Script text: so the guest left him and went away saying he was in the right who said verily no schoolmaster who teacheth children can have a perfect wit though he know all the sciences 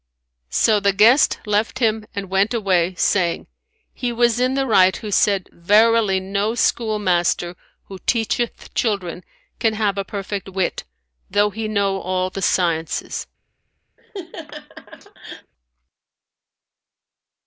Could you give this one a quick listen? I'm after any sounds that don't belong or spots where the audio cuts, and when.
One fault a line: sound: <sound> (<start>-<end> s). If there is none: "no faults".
sound: laugh (14.0-15.5 s)